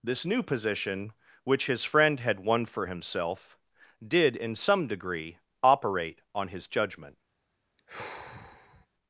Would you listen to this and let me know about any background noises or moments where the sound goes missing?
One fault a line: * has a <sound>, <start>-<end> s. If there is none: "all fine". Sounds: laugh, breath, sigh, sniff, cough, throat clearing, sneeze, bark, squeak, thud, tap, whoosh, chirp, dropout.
* has a sigh, 7.8-8.9 s